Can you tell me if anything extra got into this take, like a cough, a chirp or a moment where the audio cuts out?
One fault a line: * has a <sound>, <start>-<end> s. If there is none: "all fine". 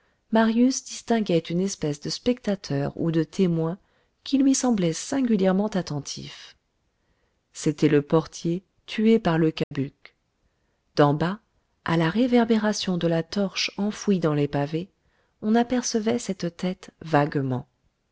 * has a dropout, 9.6-9.7 s